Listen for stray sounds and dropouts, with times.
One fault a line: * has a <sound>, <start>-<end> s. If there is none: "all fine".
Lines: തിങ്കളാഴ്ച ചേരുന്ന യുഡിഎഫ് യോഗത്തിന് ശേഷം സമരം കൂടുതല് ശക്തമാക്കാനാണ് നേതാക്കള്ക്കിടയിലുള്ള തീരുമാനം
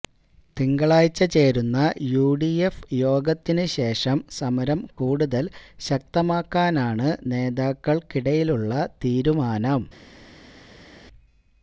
all fine